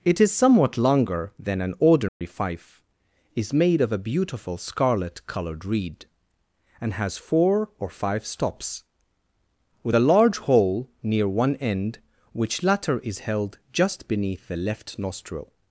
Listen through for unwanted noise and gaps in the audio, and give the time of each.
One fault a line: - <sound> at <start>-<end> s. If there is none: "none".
- dropout at 2.1-2.2 s